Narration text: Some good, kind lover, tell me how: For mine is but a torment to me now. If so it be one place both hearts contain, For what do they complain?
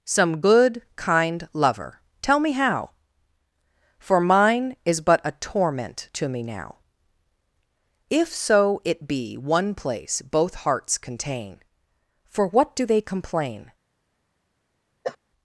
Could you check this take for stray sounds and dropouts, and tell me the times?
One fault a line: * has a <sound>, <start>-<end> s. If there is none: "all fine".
* has a cough, 15.0-15.2 s